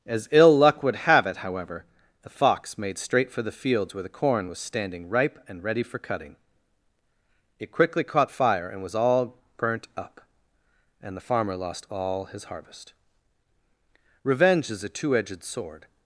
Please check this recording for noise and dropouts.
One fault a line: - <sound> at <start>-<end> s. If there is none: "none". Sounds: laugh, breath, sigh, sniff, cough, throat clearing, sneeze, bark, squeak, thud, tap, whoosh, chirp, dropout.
none